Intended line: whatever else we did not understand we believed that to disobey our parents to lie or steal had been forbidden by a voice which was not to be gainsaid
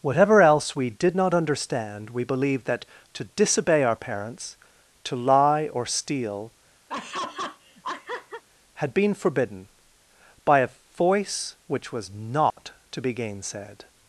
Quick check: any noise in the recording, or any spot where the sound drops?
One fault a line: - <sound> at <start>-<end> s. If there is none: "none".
- laugh at 6.9-8.4 s
- dropout at 12.5-12.6 s